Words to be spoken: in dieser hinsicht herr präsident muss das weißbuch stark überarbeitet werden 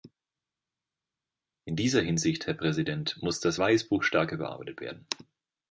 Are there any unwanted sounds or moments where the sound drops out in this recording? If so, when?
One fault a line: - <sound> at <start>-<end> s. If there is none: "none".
none